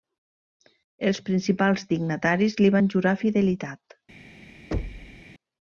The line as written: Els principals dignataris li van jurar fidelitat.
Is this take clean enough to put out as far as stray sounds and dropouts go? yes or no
no